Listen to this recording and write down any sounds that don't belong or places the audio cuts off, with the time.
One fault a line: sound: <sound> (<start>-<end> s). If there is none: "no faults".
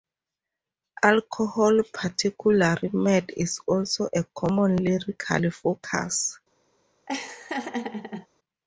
sound: laugh (7.1-8.3 s)